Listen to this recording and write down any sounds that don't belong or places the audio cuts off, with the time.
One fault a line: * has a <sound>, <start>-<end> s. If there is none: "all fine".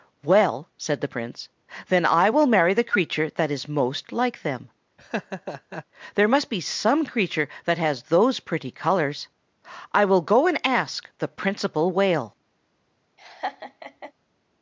* has a laugh, 5.0-5.8 s
* has a laugh, 13.2-14.1 s